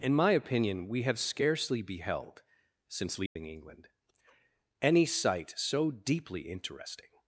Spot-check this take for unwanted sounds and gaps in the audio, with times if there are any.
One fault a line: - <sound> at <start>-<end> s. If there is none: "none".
- dropout at 3.3-3.4 s